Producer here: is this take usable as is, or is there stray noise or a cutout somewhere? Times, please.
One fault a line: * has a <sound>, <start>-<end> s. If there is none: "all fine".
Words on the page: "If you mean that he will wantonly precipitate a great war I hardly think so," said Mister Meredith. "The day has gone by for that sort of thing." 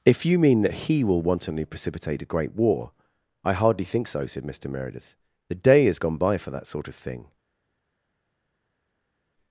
all fine